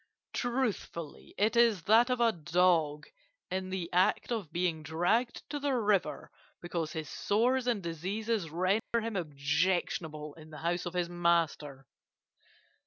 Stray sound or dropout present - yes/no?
yes